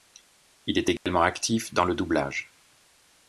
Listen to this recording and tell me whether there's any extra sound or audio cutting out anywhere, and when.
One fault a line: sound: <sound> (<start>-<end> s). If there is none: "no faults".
sound: dropout (1.0-1.1 s)